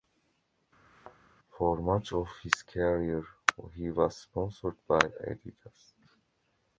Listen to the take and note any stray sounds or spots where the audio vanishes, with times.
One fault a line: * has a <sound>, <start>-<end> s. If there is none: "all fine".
* has a thud, 0.8-1.2 s